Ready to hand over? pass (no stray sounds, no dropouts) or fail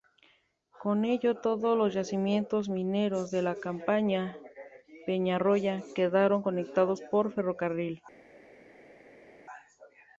pass